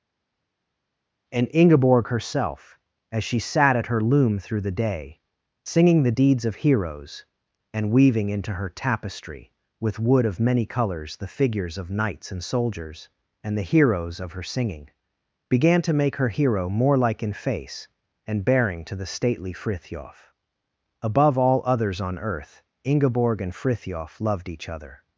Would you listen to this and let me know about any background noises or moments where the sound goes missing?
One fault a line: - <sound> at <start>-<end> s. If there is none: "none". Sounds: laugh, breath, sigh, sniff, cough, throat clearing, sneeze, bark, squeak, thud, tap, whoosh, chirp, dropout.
none